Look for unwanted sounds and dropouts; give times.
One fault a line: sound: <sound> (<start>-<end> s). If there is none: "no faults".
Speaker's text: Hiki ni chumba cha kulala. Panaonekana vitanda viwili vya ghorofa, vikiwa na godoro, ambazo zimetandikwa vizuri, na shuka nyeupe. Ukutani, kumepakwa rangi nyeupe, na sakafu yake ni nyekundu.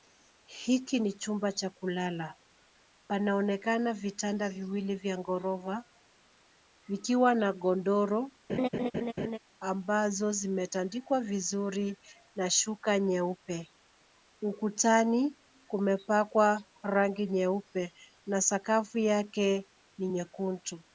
sound: laugh (8.5-9.4 s)